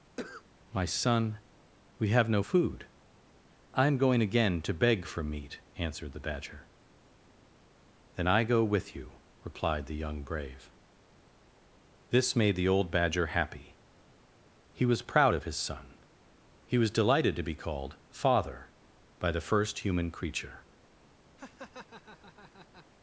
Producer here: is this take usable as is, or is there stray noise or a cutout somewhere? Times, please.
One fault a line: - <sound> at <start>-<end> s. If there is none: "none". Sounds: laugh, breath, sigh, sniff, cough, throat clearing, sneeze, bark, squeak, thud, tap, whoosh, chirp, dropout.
- cough at 0.2-0.4 s
- laugh at 21.4-22.9 s